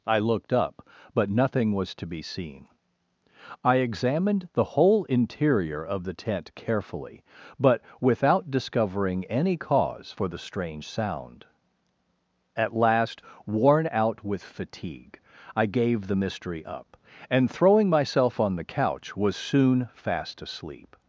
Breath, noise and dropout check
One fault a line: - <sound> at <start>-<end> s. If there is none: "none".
none